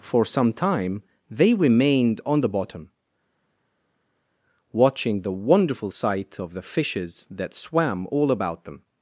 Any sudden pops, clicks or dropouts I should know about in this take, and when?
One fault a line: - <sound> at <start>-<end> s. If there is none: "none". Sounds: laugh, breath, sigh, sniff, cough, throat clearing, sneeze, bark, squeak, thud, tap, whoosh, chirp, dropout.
none